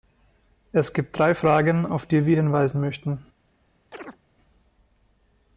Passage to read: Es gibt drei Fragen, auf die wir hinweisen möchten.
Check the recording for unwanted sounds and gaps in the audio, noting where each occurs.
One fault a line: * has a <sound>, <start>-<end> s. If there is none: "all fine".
* has a chirp, 3.9-4.2 s